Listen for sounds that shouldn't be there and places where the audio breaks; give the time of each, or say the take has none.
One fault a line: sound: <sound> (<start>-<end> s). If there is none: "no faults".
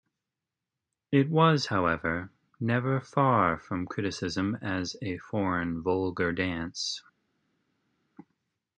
no faults